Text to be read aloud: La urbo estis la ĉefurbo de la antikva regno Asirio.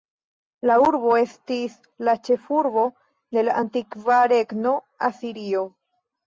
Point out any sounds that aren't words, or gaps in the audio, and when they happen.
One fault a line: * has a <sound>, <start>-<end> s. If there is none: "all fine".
all fine